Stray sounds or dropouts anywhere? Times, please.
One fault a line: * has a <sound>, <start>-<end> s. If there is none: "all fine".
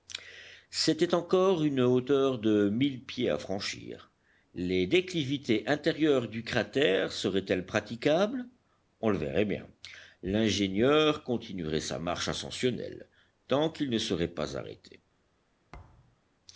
* has a thud, 15.7-16.2 s